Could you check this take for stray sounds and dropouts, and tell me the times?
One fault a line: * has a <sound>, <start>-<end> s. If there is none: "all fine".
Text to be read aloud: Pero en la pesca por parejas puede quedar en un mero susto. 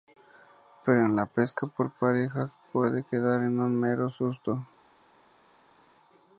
all fine